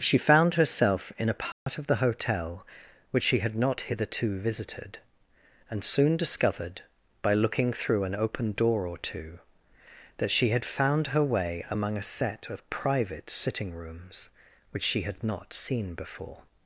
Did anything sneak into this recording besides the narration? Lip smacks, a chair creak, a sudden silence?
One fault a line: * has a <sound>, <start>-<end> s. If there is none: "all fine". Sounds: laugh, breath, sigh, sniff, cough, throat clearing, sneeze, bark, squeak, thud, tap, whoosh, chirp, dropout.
* has a dropout, 1.5-1.7 s